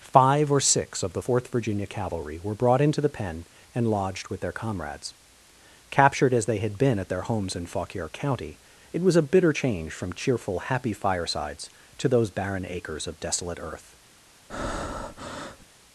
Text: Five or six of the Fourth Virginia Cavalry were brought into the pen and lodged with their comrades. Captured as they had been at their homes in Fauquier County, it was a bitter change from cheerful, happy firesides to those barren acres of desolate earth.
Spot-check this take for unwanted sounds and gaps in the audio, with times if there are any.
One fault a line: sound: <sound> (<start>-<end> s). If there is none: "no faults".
sound: breath (14.5-15.7 s)